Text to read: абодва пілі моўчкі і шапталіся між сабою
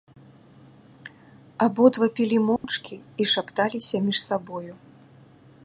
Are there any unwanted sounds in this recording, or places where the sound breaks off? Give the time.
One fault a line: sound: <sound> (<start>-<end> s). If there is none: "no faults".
sound: dropout (2.6-2.6 s)